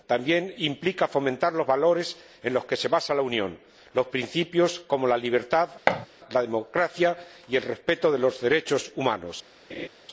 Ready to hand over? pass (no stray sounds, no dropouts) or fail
fail